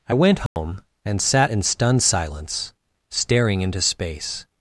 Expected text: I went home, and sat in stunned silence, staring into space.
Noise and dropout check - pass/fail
fail